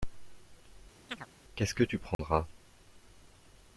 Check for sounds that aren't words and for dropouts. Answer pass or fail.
fail